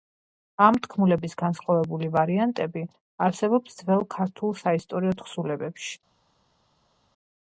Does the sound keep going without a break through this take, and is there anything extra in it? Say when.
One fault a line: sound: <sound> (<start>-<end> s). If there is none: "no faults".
no faults